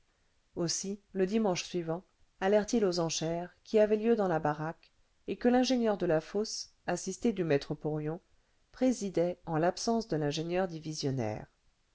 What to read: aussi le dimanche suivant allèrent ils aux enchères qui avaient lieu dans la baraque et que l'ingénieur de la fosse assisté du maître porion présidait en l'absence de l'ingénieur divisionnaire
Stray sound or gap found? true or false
false